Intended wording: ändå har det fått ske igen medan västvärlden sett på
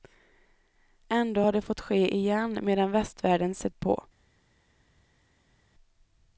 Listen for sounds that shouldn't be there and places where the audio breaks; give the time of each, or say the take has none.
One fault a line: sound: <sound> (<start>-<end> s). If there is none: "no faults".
no faults